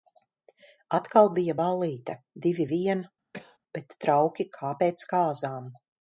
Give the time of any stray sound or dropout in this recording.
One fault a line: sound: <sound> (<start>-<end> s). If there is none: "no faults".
sound: cough (3.3-3.6 s)